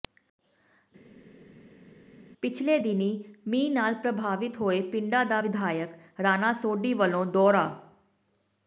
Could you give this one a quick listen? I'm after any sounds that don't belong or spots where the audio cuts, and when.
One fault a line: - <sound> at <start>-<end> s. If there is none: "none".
none